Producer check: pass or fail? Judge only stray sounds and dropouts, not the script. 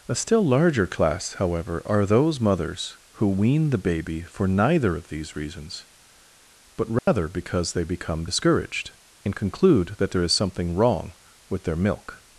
fail